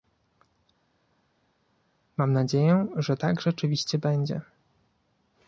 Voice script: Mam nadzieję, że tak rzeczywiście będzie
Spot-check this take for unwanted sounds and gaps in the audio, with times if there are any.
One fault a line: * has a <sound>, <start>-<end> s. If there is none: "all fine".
all fine